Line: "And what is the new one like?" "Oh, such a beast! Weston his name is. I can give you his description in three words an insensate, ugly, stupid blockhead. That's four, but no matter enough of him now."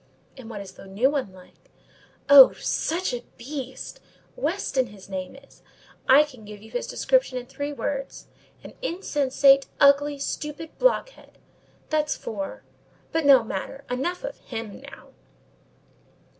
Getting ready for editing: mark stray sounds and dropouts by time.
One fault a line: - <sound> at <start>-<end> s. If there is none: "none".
none